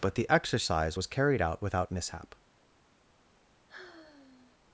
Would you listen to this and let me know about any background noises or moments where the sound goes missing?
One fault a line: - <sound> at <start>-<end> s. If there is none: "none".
- sigh at 3.7-4.6 s